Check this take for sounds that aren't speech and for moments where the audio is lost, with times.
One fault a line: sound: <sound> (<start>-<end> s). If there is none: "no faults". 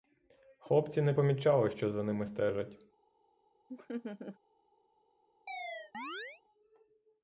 sound: laugh (3.7-4.4 s)
sound: chirp (5.5-6.4 s)